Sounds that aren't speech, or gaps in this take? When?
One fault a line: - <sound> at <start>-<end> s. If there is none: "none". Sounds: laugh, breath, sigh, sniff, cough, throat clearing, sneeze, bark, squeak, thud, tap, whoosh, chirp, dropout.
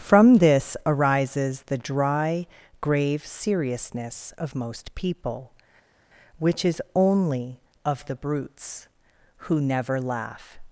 none